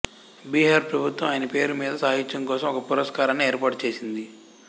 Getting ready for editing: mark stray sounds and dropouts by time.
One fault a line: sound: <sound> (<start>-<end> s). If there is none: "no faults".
no faults